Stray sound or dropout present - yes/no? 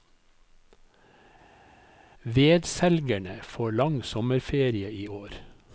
no